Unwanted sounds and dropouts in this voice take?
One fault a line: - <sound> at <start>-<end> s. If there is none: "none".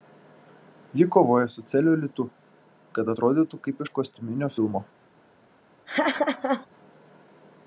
- laugh at 5.9-6.7 s